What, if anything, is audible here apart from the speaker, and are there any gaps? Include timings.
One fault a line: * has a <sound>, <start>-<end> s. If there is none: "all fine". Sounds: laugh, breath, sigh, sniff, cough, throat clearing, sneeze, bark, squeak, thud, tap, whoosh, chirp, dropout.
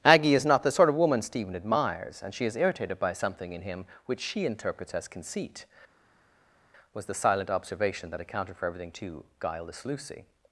all fine